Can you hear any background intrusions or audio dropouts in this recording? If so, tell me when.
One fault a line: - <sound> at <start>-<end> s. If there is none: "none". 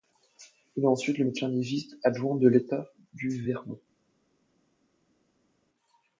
none